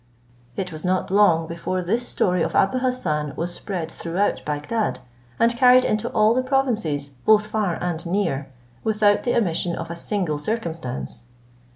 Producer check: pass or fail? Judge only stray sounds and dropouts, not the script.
pass